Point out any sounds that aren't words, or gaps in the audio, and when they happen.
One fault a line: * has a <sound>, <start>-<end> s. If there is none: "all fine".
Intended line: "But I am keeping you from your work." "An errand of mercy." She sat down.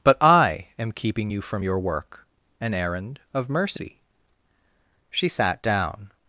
all fine